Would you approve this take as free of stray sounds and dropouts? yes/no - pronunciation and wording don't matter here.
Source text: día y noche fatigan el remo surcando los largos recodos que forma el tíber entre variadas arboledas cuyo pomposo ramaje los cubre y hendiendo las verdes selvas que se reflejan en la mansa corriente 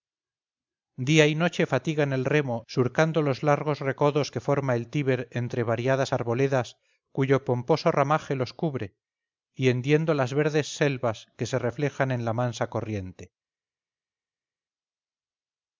yes